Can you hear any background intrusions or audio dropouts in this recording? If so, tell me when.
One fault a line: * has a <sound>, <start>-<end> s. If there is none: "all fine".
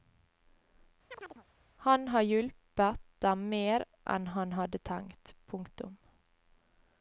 * has a chirp, 1.1-1.5 s